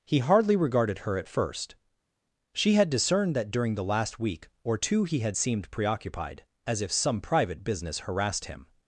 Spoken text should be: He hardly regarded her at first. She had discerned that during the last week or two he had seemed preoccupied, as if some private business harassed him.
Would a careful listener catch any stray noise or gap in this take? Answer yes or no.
no